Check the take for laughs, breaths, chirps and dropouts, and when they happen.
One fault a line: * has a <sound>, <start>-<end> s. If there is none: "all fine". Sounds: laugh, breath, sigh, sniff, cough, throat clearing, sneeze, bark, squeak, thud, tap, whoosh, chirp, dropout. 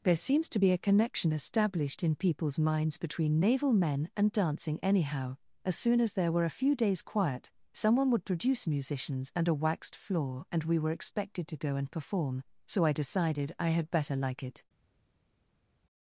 all fine